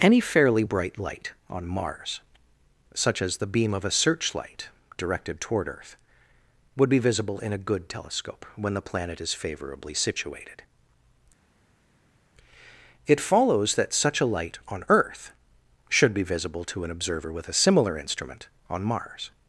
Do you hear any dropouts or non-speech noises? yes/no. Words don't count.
no